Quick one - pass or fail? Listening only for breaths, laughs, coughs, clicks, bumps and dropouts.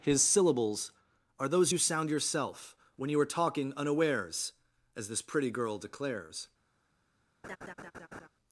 fail